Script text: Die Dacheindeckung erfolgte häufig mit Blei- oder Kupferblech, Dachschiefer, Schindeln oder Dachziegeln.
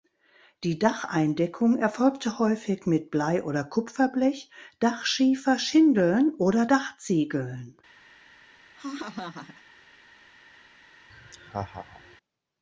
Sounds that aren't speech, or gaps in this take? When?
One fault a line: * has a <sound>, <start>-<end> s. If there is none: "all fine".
* has a laugh, 8.7-9.6 s
* has a laugh, 11.1-12.2 s